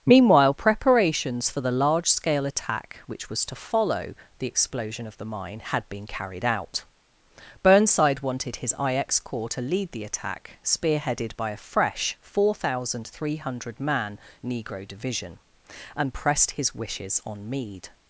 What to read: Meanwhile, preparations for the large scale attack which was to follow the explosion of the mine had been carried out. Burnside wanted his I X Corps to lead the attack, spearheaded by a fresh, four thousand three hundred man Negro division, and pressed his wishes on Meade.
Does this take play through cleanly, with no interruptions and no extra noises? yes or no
yes